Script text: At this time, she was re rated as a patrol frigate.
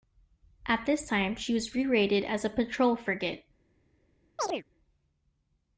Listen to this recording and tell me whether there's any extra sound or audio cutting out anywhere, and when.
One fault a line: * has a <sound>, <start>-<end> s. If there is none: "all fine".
* has a chirp, 4.4-4.6 s